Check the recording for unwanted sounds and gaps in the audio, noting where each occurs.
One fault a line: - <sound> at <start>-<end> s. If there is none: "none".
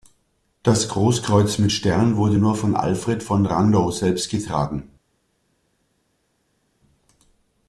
none